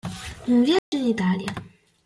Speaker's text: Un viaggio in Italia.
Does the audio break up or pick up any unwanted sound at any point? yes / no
yes